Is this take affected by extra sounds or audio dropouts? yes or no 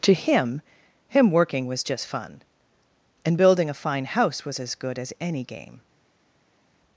no